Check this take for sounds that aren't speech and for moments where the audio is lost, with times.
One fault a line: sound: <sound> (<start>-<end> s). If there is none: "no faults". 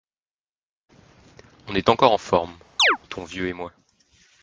sound: chirp (2.8-3.0 s)